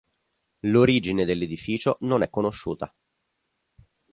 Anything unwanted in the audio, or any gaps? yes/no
no